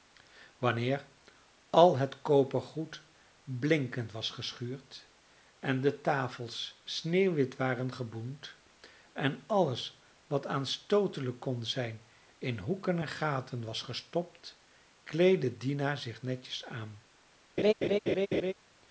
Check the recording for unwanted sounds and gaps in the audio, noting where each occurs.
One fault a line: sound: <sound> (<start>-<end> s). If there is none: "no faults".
sound: laugh (17.6-18.5 s)